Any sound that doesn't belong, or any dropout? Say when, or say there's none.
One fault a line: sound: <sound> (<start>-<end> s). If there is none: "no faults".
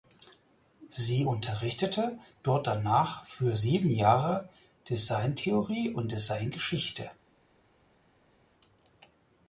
no faults